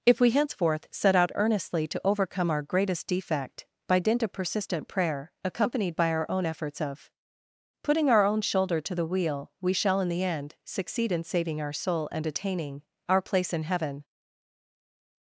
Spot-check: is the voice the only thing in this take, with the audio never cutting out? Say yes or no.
yes